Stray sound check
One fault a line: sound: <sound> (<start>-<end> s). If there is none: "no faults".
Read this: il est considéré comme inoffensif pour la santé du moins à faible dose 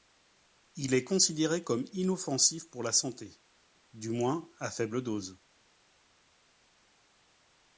no faults